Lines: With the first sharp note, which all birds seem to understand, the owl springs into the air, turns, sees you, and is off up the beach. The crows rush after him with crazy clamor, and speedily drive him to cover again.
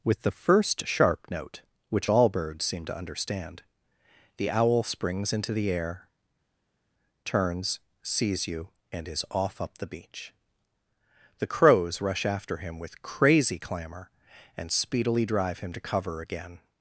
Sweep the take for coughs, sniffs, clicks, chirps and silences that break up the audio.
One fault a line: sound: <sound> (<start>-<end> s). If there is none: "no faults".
no faults